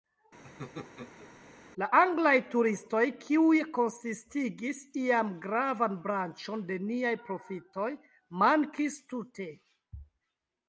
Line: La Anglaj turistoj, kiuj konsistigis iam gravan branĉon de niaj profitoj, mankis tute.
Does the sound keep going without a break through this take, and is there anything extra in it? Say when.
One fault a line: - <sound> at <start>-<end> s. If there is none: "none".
- laugh at 0.4-1.3 s